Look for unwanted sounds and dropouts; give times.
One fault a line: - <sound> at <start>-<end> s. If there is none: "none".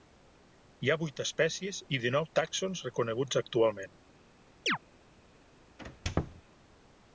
- chirp at 4.7-4.8 s
- squeak at 5.8-6.4 s